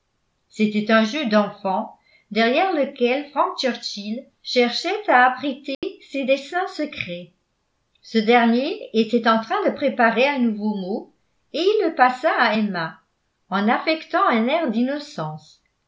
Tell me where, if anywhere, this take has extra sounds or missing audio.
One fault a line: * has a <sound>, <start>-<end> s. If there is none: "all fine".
* has a dropout, 5.7-5.8 s